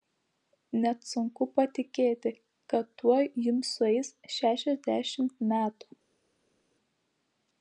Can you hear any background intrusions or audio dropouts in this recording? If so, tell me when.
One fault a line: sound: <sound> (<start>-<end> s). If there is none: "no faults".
no faults